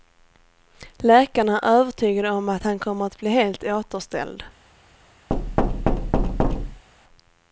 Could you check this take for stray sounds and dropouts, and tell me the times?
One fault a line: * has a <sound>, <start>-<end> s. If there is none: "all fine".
* has a thud, 5.3-6.8 s